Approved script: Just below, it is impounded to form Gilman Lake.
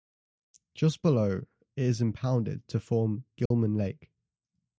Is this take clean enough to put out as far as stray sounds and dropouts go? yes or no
no